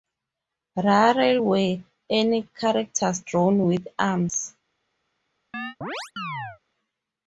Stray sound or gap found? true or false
true